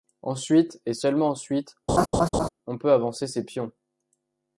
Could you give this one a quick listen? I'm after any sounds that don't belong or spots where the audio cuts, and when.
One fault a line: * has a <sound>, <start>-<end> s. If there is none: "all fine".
* has a laugh, 1.9-2.5 s